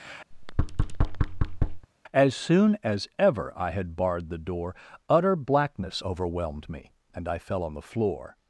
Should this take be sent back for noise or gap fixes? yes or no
yes